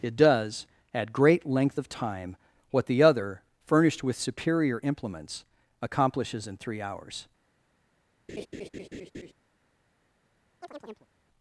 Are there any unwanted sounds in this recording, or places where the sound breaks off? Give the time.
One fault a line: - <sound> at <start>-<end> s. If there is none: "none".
- laugh at 8.3-9.3 s
- chirp at 10.6-11.1 s